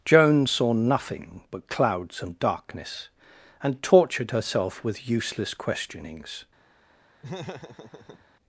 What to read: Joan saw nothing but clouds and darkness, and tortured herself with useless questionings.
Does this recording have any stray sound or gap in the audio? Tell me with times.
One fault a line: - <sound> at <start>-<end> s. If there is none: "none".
- laugh at 7.2-8.3 s